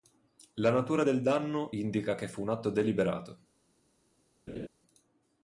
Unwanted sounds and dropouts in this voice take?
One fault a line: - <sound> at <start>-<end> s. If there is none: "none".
- laugh at 4.5-4.7 s